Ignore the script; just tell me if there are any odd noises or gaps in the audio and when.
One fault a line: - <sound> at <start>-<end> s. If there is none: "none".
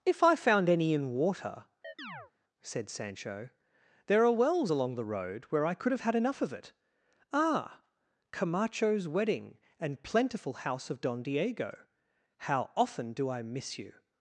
- chirp at 1.8-2.3 s